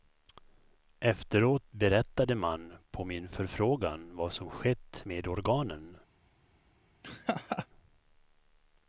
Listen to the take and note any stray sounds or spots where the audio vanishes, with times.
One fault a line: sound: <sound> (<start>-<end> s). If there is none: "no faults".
sound: laugh (7.0-7.7 s)